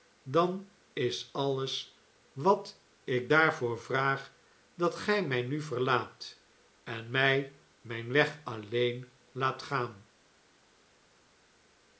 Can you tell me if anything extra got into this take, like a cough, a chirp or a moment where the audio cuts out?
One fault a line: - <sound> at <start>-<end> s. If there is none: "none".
none